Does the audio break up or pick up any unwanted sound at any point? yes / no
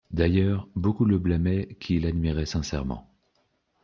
no